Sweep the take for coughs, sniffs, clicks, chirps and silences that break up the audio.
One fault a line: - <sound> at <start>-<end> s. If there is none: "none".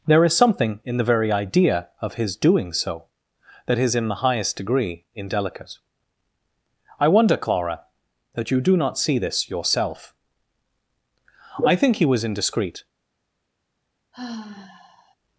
- sigh at 14.1-15.2 s